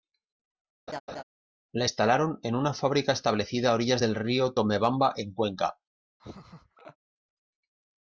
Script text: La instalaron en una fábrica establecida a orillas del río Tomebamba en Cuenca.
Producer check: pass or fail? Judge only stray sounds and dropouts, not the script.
fail